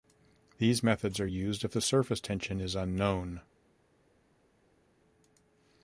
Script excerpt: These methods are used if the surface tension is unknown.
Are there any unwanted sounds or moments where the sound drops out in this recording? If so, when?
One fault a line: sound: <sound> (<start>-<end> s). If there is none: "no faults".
no faults